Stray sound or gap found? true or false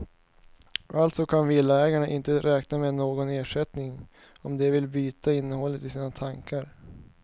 false